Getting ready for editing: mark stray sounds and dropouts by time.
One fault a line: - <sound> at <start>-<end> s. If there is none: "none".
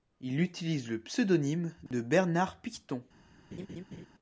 - dropout at 1.9-1.9 s
- laugh at 3.5-4.1 s